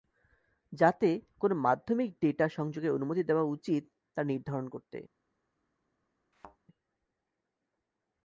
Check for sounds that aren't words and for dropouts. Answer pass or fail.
fail